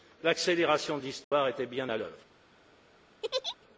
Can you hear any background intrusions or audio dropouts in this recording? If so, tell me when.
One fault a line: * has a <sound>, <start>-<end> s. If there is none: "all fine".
* has a dropout, 1.2-1.3 s
* has a laugh, 3.2-3.6 s